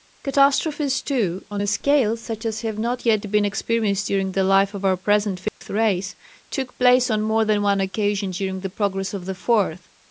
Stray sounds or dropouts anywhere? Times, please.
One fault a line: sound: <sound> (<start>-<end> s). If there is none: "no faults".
sound: dropout (5.5-5.6 s)